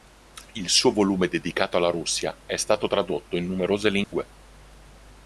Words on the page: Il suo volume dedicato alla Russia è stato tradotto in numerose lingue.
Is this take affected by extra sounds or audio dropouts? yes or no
yes